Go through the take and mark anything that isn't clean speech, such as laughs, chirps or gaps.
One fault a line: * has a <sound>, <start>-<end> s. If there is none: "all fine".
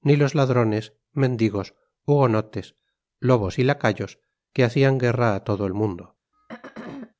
* has a throat clearing, 6.3-7.1 s